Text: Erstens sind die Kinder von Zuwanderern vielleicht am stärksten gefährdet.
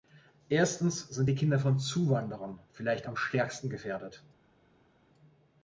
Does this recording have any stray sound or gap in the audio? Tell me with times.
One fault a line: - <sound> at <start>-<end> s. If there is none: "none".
none